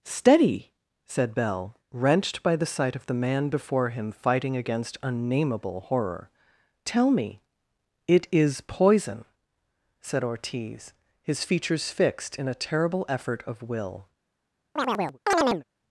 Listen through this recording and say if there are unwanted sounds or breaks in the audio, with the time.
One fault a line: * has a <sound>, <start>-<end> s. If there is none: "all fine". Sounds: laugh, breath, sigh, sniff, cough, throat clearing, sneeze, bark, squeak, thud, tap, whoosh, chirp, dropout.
* has a chirp, 14.8-15.6 s